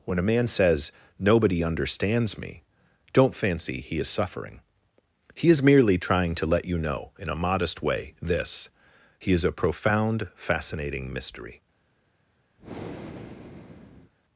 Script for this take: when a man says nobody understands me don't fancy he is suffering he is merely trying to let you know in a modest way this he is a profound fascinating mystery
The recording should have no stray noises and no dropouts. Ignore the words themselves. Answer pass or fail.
fail